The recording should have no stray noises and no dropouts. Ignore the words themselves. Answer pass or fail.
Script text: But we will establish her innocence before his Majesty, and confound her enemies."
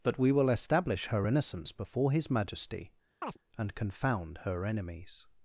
fail